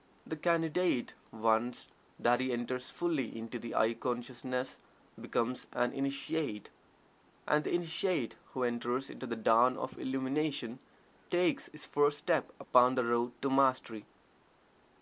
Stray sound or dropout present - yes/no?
no